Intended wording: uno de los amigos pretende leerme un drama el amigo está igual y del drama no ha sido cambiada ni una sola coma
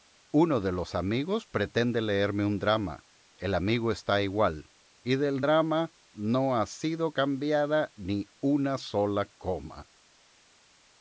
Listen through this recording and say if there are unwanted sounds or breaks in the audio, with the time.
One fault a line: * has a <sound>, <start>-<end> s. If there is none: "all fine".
all fine